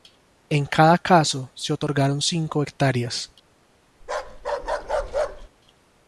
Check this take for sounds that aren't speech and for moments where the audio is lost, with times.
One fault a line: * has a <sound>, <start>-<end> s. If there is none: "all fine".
* has a bark, 4.0-5.5 s